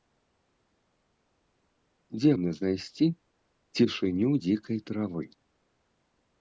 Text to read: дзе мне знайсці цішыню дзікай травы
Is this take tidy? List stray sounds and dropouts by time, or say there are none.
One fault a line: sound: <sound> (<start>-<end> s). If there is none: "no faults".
no faults